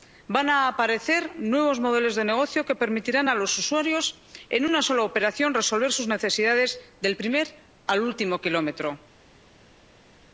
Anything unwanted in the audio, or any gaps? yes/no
no